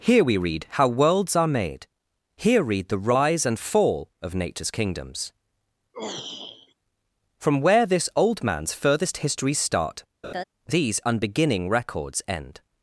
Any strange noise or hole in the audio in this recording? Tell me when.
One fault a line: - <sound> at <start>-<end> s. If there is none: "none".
- throat clearing at 5.9-6.7 s
- laugh at 10.2-10.4 s